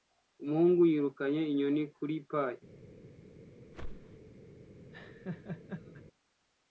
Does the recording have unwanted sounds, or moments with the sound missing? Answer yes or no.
yes